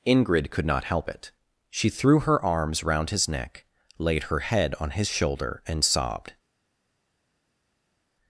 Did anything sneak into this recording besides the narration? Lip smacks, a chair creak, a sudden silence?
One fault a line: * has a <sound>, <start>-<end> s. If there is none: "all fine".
all fine